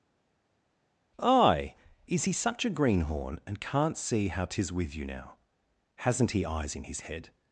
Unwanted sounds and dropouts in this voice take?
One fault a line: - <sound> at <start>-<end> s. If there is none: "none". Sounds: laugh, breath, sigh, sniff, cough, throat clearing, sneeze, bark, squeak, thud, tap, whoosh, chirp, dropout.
none